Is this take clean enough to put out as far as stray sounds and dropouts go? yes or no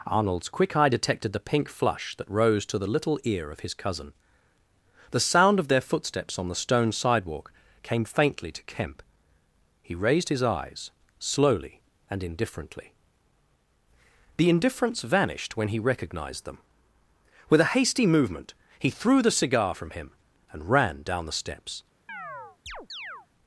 no